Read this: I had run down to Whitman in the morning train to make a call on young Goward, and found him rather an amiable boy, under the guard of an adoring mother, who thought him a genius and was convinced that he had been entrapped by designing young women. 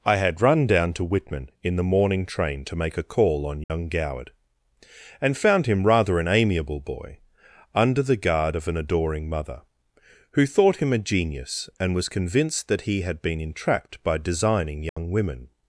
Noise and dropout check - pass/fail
fail